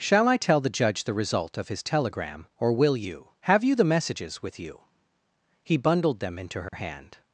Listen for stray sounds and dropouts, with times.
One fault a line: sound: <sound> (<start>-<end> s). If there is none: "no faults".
sound: dropout (6.7-6.7 s)